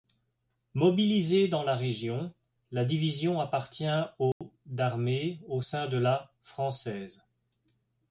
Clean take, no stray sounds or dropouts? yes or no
no